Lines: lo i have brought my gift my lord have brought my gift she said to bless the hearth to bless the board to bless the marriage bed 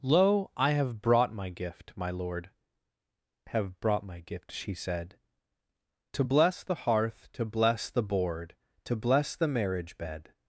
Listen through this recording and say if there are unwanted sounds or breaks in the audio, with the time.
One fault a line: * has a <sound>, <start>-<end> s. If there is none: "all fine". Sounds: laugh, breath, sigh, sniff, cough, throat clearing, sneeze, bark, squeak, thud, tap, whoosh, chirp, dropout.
all fine